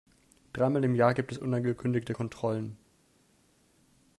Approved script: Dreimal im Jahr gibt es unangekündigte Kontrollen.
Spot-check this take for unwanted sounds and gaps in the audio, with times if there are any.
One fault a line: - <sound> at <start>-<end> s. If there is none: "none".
none